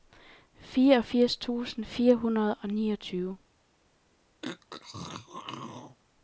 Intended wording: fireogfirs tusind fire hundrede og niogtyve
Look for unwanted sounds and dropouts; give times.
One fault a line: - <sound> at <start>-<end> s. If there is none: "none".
- throat clearing at 4.4-6.0 s